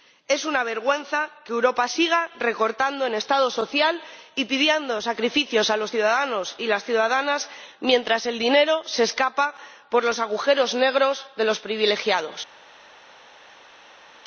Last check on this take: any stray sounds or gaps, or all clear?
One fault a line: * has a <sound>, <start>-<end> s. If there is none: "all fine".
all fine